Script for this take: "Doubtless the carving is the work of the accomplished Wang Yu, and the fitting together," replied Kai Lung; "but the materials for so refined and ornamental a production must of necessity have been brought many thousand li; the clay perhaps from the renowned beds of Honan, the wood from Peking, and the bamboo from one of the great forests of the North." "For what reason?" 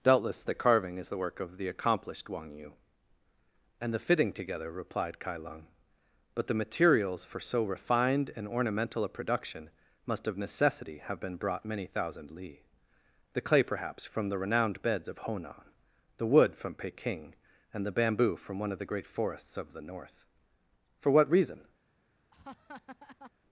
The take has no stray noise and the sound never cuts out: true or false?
false